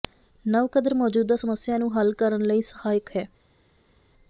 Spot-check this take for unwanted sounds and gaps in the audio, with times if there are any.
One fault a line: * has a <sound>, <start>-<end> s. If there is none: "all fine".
all fine